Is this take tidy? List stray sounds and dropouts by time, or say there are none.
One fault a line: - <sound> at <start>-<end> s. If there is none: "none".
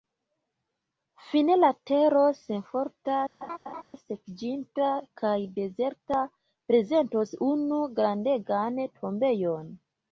- laugh at 3.4-3.8 s